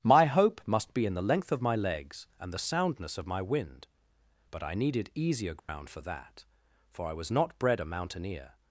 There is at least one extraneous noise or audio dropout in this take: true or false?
true